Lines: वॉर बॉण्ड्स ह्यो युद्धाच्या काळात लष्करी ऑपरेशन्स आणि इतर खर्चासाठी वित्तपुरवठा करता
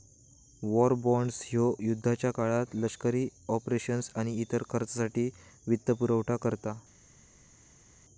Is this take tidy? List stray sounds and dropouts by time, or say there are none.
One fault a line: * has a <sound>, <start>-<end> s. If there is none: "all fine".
all fine